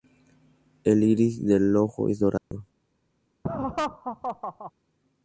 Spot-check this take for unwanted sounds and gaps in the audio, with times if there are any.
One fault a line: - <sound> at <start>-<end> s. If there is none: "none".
- dropout at 2.4-2.5 s
- laugh at 3.4-4.7 s